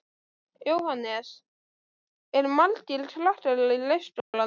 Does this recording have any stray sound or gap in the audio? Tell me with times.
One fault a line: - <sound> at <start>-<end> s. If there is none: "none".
- dropout at 4.2-4.3 s